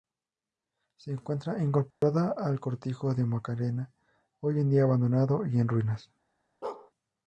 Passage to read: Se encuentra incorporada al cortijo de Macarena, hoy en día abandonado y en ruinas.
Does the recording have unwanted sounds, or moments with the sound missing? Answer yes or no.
yes